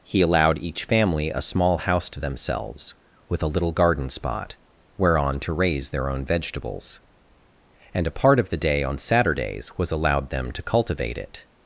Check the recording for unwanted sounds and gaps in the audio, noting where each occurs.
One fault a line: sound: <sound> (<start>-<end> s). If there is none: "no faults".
no faults